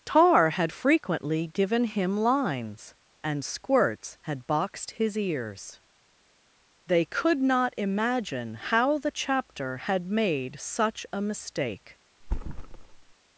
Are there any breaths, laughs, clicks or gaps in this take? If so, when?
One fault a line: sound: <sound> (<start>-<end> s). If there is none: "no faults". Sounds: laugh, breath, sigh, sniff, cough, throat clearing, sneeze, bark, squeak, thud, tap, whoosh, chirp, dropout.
sound: thud (12.2-13.1 s)